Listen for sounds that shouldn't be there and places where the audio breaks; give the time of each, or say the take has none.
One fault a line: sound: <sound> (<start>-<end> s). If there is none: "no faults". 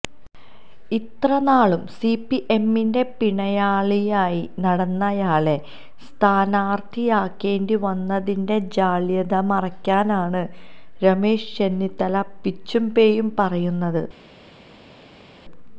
no faults